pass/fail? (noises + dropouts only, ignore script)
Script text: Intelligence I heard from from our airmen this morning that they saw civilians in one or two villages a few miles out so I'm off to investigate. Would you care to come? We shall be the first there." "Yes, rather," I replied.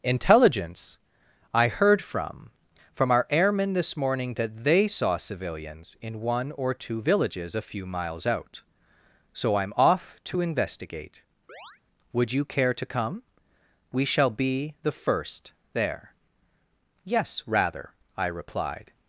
fail